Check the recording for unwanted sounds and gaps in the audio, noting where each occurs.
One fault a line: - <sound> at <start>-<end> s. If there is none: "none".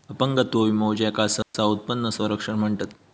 - dropout at 1.4-1.5 s